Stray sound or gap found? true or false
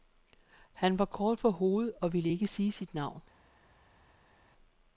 false